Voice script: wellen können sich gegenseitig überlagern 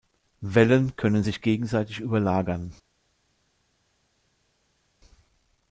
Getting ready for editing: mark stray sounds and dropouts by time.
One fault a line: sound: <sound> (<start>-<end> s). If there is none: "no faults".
no faults